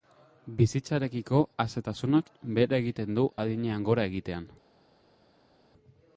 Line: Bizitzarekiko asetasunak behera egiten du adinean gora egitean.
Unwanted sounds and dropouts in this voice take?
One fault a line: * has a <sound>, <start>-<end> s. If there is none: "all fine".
all fine